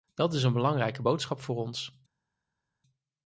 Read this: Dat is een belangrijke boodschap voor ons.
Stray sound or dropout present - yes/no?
no